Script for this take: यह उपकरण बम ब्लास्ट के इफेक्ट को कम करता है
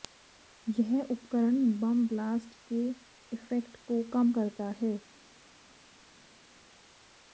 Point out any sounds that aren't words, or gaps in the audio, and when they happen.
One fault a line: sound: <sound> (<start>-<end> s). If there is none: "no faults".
no faults